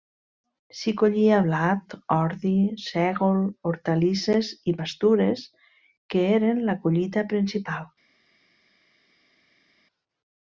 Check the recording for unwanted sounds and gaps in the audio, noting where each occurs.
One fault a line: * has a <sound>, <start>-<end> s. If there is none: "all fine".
all fine